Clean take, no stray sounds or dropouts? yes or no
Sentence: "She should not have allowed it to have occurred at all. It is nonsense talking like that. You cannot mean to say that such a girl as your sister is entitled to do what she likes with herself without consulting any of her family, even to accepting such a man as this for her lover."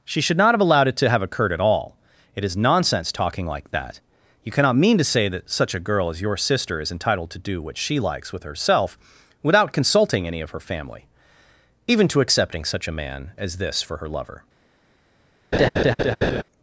no